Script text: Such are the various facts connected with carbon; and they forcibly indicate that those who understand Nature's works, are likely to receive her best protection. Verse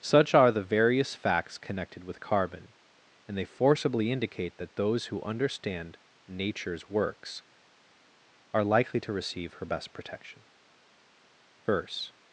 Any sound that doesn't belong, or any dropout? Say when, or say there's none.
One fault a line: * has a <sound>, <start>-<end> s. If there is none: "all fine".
all fine